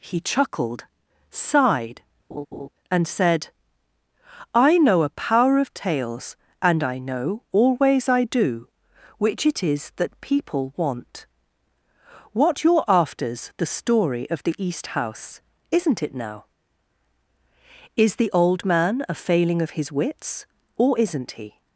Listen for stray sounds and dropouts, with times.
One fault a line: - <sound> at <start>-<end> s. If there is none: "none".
- laugh at 2.3-2.7 s